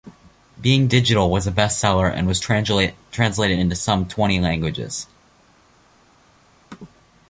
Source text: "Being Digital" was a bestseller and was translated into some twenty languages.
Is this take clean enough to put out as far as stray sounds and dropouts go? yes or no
yes